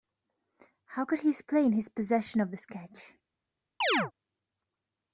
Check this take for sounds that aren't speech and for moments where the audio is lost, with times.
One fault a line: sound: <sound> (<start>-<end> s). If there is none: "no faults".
sound: chirp (3.8-4.1 s)